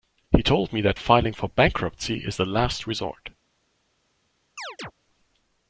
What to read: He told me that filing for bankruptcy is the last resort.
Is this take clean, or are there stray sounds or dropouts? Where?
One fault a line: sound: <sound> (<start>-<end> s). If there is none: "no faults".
sound: chirp (4.6-4.9 s)